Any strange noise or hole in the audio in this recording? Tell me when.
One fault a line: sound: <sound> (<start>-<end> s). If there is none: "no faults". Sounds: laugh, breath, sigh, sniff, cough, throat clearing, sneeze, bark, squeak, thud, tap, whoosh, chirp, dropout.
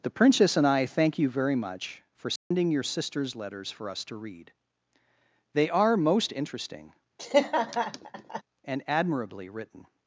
sound: dropout (2.4-2.5 s)
sound: laugh (7.2-8.4 s)